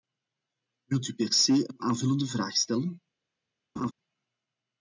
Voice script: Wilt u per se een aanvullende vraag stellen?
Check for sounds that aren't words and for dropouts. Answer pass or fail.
fail